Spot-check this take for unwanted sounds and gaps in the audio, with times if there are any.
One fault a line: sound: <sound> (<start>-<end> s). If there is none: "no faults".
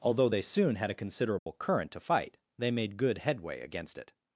sound: dropout (1.4-1.5 s)